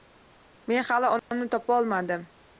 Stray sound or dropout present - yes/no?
yes